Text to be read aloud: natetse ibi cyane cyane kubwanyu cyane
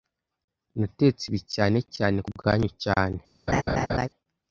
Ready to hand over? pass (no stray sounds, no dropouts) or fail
fail